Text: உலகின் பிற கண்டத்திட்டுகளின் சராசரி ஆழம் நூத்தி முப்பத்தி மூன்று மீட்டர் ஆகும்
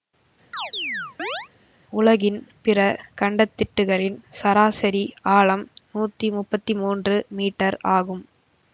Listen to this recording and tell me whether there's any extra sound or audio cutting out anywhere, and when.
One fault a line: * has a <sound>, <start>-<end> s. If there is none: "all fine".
* has a chirp, 0.5-1.5 s